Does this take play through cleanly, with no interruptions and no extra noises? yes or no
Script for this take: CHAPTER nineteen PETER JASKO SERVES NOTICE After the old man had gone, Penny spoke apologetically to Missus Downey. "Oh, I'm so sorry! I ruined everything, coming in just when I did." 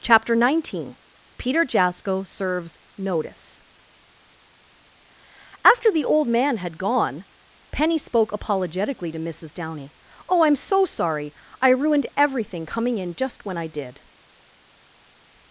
yes